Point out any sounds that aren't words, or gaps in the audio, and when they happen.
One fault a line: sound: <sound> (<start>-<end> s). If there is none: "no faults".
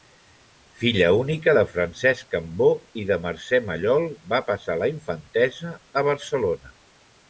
no faults